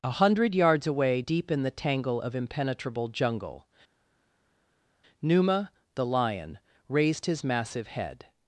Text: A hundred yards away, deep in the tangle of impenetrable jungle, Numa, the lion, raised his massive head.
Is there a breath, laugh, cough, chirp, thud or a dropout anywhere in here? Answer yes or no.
no